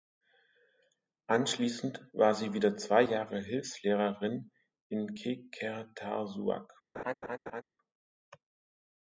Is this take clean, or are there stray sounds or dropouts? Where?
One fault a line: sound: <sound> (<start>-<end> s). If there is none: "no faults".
sound: laugh (6.9-7.6 s)